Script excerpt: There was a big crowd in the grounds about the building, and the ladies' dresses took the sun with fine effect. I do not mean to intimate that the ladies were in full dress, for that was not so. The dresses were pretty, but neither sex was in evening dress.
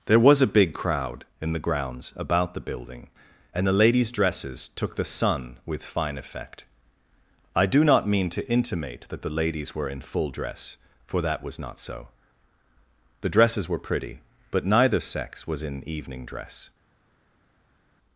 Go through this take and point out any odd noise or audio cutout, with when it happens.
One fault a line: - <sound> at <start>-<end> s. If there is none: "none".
none